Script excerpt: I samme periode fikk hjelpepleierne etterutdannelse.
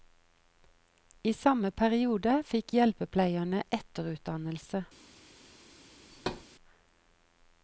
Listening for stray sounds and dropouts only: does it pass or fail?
fail